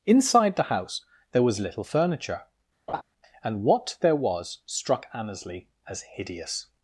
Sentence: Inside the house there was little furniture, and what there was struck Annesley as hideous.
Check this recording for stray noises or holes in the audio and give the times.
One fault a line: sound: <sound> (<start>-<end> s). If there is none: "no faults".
sound: laugh (2.9-3.0 s)